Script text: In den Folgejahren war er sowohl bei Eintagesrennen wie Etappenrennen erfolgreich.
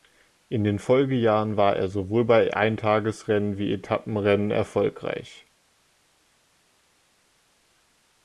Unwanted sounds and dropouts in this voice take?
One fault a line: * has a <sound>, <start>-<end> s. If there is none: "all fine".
all fine